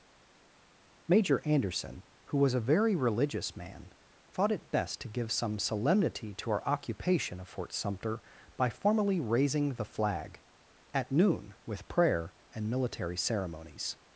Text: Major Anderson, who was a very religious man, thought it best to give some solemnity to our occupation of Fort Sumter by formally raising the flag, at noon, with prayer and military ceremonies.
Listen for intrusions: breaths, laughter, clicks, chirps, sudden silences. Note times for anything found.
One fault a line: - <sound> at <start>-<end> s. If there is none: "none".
none